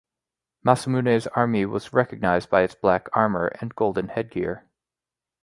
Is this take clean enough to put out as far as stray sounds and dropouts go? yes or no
yes